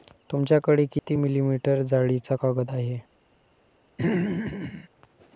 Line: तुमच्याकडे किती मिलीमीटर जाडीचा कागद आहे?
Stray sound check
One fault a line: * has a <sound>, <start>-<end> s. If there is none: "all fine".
* has a dropout, 1.0-1.1 s
* has a throat clearing, 4.0-4.9 s